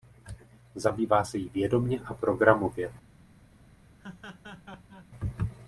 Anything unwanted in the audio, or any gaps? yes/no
yes